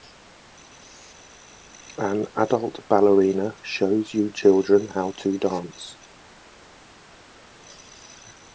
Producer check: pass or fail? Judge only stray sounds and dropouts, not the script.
pass